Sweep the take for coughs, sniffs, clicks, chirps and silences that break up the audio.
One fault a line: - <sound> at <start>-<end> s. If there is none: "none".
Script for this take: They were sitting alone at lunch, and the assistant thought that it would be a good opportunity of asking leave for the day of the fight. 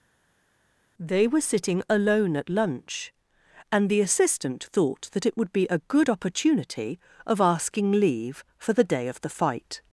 none